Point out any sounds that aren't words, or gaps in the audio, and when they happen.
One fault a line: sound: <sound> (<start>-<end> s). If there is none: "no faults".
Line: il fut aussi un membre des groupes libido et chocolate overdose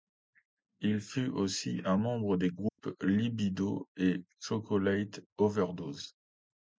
sound: dropout (2.7-2.8 s)